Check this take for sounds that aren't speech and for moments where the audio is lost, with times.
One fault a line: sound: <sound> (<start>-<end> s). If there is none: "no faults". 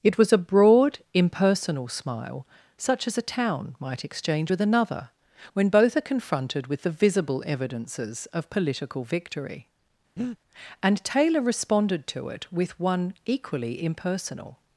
sound: breath (10.2-10.4 s)